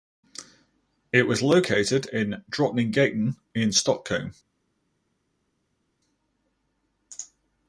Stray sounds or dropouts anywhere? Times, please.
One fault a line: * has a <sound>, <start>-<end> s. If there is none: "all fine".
all fine